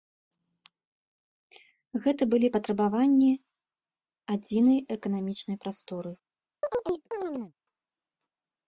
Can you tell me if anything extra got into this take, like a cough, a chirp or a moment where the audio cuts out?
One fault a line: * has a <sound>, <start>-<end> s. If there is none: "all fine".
* has a chirp, 6.6-7.5 s